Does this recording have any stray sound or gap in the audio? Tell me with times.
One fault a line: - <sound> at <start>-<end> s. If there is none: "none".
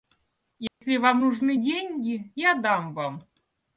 - dropout at 0.7-0.8 s